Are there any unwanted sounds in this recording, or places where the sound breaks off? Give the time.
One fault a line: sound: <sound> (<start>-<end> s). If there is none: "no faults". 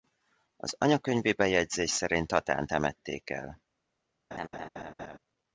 sound: laugh (4.3-5.2 s)